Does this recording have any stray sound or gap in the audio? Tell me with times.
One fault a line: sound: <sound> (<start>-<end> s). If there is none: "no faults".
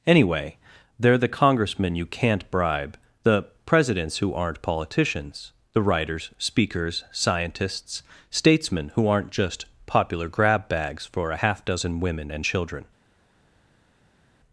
no faults